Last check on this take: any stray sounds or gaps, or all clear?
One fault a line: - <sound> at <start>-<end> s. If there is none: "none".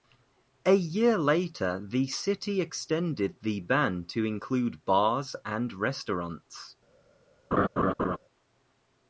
- laugh at 7.5-8.2 s